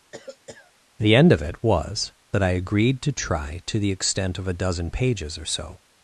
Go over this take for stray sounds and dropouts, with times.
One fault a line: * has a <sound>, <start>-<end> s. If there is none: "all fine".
* has a cough, 0.1-0.7 s